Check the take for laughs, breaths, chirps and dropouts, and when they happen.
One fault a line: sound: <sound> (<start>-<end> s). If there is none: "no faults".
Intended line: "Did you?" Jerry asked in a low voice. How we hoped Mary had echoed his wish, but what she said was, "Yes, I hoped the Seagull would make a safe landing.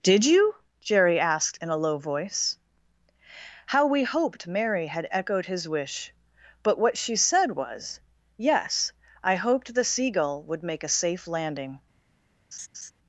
sound: laugh (12.5-12.9 s)